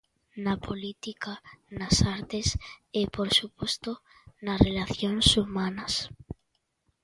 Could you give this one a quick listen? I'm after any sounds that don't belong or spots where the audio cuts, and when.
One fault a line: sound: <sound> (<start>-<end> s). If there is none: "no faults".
no faults